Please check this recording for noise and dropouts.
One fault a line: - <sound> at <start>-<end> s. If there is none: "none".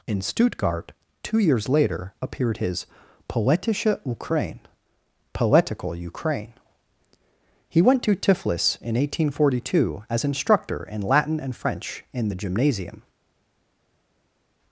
none